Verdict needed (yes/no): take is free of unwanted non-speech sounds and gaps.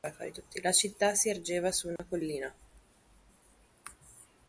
no